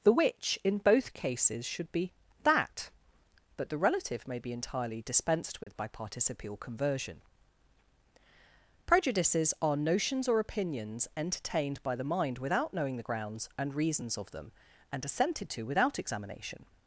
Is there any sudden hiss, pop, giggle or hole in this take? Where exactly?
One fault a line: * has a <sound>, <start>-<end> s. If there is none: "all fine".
* has a dropout, 5.6-5.7 s